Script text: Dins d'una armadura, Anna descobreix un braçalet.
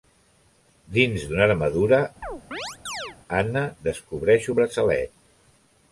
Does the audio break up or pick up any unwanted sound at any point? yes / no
yes